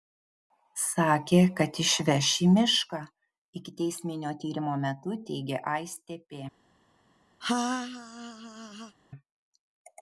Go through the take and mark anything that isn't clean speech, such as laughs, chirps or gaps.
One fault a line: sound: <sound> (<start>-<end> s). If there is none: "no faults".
sound: laugh (7.4-9.0 s)